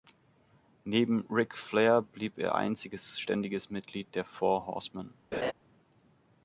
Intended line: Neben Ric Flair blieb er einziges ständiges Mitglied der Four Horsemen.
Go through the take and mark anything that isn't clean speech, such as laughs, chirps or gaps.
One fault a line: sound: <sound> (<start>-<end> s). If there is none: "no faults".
sound: laugh (5.3-5.5 s)